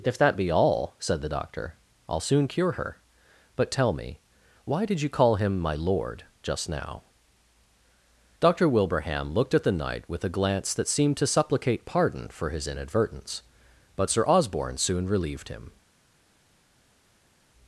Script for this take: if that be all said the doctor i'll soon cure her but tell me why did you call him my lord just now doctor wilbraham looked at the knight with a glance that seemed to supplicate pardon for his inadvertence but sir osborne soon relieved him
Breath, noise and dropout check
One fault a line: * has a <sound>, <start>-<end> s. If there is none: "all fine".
all fine